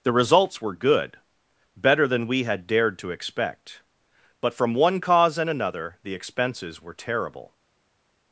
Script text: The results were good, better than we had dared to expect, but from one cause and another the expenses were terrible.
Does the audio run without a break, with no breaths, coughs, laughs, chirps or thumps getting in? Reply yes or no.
yes